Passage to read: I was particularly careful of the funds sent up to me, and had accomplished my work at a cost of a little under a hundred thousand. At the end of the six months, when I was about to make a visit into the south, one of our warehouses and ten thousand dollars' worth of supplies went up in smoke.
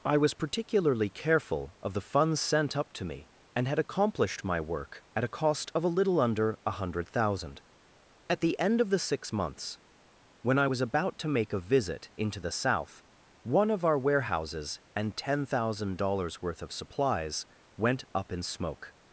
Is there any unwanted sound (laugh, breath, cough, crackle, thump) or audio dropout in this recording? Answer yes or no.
no